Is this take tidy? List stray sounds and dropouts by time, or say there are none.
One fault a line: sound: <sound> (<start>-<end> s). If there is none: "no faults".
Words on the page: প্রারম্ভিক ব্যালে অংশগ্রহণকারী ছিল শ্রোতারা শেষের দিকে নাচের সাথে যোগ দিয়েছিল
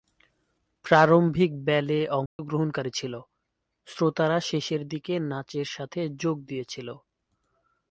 sound: dropout (2.3-2.4 s)